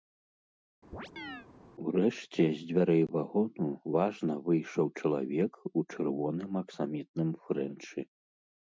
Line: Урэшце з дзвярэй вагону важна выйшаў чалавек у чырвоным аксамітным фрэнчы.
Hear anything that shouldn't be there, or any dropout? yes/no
yes